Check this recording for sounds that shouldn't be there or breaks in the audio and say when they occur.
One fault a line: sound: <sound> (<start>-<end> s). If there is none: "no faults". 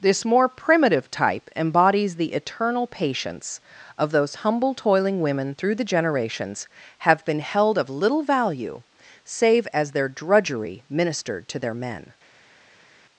no faults